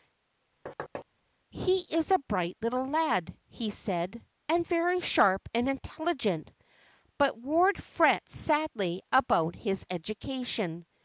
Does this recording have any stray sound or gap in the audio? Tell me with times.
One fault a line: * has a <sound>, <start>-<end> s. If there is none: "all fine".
* has a thud, 0.7-1.1 s